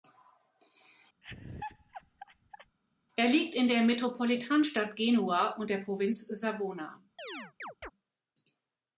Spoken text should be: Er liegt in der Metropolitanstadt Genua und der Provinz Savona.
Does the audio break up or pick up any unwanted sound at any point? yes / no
yes